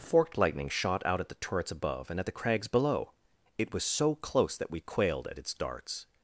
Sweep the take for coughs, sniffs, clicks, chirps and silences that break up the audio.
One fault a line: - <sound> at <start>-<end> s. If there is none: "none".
none